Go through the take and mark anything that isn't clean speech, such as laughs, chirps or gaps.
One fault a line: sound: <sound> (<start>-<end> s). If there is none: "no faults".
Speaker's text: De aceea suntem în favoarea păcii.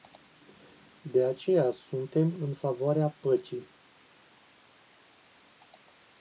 no faults